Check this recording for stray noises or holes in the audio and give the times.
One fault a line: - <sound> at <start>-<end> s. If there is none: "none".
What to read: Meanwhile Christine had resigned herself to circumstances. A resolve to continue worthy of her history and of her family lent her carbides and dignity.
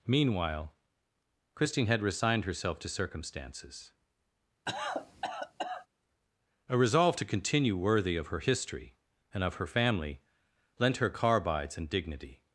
- cough at 4.7-5.9 s